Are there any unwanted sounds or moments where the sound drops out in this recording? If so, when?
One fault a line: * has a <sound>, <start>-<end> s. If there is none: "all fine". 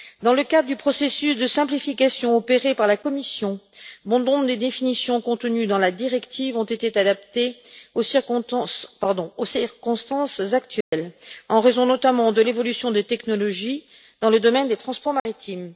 * has a dropout, 10.8-10.9 s
* has a dropout, 15.2-15.3 s